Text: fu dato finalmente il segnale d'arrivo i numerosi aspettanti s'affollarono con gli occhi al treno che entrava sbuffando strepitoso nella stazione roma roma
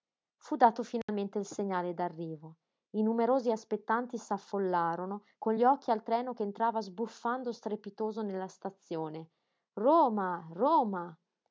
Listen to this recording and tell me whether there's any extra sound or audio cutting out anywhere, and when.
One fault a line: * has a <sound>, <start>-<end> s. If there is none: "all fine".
* has a dropout, 1.0-1.1 s